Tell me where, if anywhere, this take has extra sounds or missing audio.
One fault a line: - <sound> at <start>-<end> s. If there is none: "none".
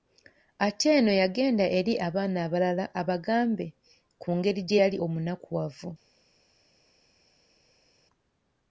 none